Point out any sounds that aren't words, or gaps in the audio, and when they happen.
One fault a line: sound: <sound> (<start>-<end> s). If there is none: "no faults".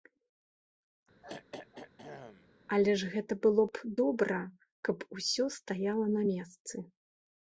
sound: throat clearing (1.2-2.5 s)